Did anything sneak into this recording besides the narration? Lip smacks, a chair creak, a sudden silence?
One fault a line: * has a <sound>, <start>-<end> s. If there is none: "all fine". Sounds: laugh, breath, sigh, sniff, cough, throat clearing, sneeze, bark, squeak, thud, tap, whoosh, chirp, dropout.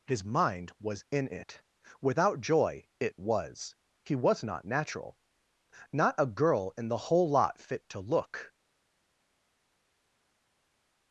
all fine